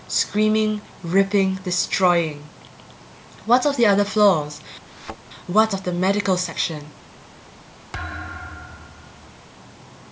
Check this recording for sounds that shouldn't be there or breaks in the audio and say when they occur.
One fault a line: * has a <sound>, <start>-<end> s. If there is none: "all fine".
* has a thud, 4.9-5.2 s
* has a thud, 7.9-9.4 s